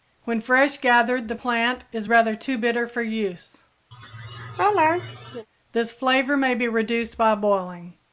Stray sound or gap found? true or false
true